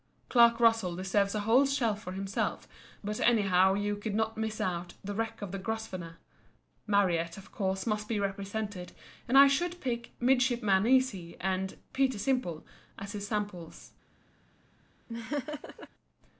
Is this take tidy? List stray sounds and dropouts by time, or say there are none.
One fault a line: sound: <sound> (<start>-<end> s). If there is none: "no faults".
sound: laugh (15.1-15.9 s)